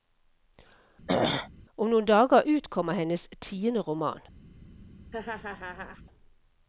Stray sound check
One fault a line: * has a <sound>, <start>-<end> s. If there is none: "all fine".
* has a throat clearing, 1.1-1.5 s
* has a laugh, 5.1-6.0 s